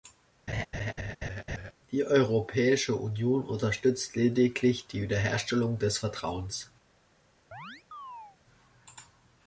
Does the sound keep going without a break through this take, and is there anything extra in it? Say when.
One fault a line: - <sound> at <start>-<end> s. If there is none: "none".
- laugh at 0.5-1.7 s
- chirp at 7.5-8.4 s